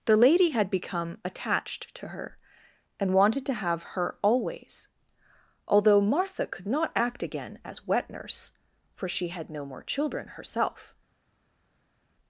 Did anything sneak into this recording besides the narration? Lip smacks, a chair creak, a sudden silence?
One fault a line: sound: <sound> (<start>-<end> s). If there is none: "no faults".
no faults